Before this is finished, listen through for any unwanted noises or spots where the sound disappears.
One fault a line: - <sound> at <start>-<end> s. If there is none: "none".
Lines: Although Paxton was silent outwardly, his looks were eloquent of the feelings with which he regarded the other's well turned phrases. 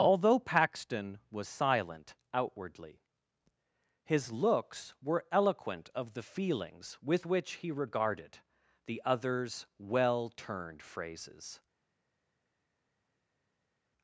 none